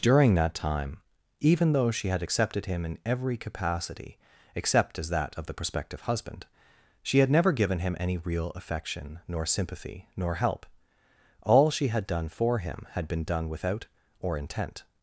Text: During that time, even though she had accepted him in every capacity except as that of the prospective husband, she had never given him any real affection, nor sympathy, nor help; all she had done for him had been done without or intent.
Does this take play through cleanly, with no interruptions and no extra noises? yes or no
yes